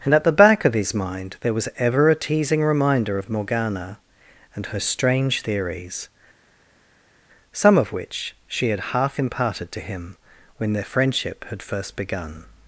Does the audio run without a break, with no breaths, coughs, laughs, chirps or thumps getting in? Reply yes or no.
yes